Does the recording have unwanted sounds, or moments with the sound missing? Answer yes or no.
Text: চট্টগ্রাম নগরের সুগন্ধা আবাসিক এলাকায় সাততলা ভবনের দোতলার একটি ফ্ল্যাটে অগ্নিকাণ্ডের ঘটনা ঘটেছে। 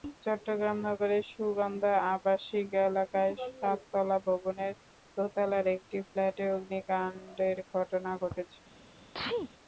yes